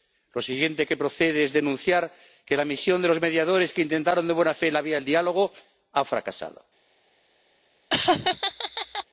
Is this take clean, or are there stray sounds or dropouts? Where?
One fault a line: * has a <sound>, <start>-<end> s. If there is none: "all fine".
* has a laugh, 7.9-9.0 s